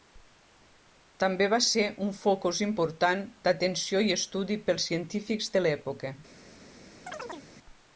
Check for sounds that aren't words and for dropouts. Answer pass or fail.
fail